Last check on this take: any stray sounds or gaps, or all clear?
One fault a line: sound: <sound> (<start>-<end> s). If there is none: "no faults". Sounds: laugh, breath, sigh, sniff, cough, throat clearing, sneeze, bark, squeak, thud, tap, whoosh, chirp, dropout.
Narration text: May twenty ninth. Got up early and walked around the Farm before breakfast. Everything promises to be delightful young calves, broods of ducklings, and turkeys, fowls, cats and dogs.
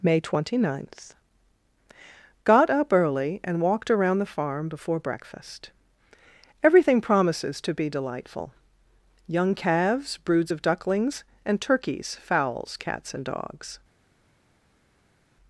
no faults